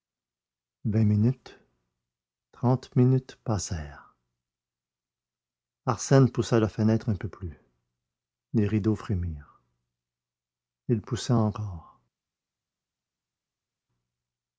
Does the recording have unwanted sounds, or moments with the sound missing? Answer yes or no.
no